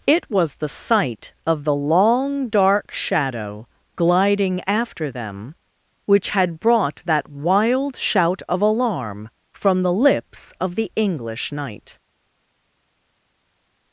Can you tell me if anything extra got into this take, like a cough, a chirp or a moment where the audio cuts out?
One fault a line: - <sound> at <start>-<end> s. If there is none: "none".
none